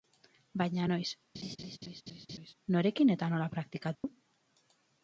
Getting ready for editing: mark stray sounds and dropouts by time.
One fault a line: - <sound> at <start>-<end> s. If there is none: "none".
- laugh at 1.3-2.5 s
- dropout at 3.9-4.0 s